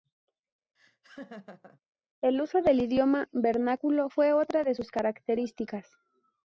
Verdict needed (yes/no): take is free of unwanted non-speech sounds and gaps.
no